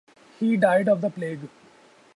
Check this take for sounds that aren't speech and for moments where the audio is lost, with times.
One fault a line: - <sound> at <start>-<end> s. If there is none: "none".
none